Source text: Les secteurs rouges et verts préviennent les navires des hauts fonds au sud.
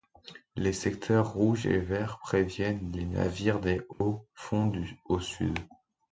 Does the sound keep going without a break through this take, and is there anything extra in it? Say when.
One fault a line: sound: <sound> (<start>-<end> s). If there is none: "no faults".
sound: dropout (3.9-4.0 s)